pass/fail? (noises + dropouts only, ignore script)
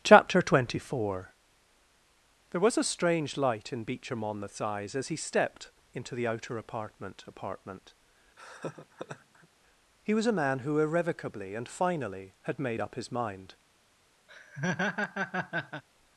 fail